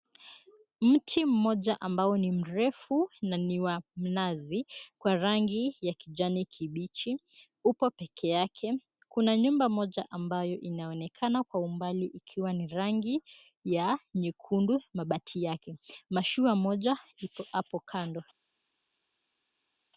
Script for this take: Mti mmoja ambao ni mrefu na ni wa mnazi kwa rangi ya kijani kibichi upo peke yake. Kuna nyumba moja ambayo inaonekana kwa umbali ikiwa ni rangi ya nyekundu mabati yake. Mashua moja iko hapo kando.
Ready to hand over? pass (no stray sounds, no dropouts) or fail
pass